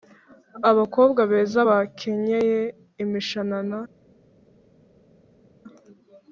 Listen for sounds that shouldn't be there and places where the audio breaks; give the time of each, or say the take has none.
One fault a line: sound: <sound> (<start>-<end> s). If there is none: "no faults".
no faults